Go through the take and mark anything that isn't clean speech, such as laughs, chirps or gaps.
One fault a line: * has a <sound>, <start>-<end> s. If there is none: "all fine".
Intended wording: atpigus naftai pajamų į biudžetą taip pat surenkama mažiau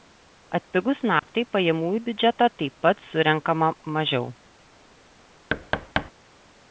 * has a dropout, 1.2-1.2 s
* has a thud, 5.5-6.1 s